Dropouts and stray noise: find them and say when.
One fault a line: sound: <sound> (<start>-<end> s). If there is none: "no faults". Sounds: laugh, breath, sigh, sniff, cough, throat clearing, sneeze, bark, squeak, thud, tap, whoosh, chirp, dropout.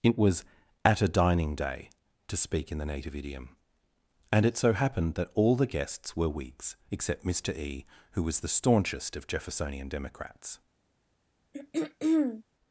sound: throat clearing (11.5-12.4 s)